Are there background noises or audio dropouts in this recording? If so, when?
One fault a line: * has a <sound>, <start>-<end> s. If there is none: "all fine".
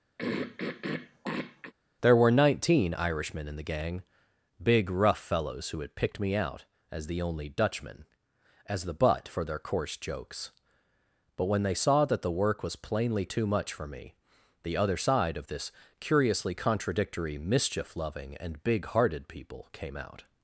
* has a throat clearing, 0.2-1.7 s